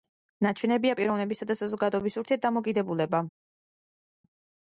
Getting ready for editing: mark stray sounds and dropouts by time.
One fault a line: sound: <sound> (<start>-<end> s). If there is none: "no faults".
no faults